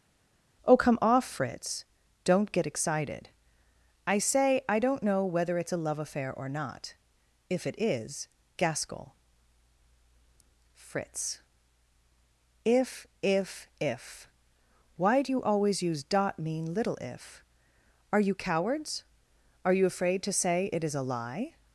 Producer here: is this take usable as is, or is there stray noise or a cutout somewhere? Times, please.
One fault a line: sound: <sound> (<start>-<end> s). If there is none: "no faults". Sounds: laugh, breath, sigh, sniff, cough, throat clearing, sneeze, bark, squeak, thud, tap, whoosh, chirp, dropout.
no faults